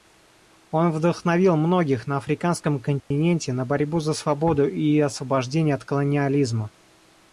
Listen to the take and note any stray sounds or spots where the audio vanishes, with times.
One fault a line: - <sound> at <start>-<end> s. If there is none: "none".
- dropout at 3.0-3.1 s